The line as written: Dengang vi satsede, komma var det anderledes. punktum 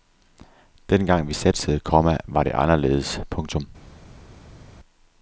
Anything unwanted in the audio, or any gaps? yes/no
no